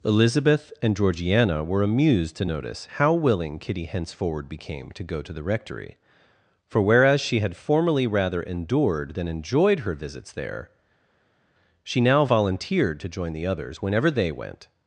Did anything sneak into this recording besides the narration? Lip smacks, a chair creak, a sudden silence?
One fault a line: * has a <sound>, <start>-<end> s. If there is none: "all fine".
all fine